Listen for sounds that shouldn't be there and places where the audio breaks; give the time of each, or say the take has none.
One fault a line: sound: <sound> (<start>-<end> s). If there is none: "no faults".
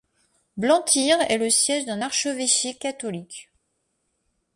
no faults